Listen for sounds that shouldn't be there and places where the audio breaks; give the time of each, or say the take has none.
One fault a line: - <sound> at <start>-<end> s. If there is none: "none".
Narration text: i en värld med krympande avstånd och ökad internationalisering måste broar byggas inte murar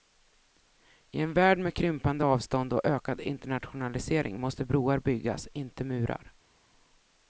none